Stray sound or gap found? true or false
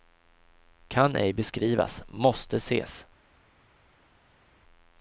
false